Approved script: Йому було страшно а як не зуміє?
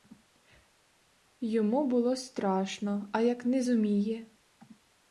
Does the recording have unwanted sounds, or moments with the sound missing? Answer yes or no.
no